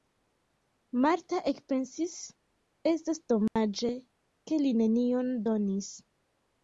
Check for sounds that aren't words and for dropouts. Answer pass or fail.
fail